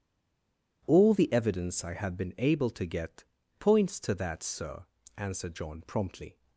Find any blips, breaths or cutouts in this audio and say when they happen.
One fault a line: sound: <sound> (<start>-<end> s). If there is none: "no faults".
no faults